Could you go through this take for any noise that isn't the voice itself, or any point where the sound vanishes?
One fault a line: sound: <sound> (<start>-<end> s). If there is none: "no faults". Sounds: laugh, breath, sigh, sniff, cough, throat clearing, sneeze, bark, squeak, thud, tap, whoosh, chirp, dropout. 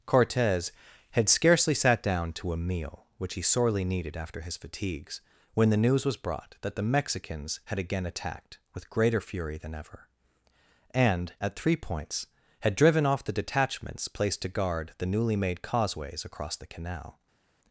no faults